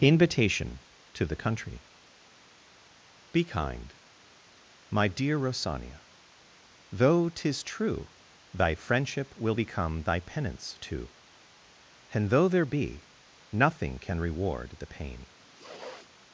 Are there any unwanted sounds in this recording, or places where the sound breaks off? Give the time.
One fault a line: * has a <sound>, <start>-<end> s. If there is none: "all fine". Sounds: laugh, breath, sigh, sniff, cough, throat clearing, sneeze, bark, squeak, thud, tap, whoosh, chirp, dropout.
* has a sniff, 15.4-16.1 s